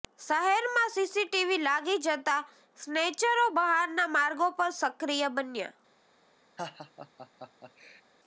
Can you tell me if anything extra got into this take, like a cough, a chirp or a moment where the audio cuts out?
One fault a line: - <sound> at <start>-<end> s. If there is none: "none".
- laugh at 6.6-8.0 s